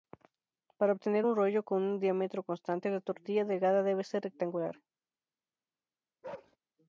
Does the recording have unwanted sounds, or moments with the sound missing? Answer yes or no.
yes